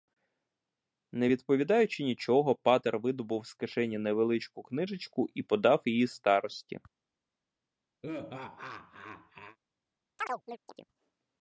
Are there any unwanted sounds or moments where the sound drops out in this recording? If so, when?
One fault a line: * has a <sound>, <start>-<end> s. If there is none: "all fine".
* has a laugh, 8.0-9.6 s
* has a chirp, 10.2-10.9 s